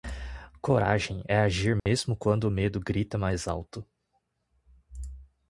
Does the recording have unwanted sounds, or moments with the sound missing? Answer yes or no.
yes